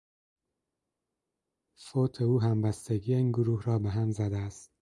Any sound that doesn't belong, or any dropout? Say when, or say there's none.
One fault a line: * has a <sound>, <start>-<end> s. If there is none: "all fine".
all fine